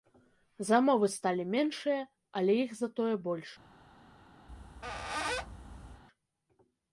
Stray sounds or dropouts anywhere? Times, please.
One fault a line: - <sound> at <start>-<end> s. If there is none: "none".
- squeak at 4.5-6.0 s